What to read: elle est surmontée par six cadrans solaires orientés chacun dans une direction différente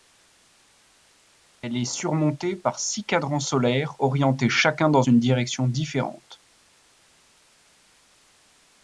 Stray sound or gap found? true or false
false